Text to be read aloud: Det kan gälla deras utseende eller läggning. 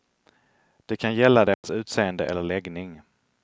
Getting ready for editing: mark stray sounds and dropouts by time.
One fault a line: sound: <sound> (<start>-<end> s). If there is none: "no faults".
sound: dropout (1.5-1.6 s)